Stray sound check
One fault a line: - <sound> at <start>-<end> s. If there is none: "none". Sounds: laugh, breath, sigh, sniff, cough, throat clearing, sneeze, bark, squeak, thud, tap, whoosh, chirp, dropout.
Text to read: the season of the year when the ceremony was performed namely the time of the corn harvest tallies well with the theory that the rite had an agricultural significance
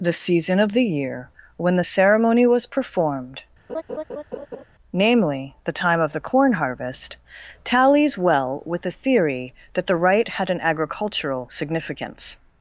- laugh at 3.7-4.6 s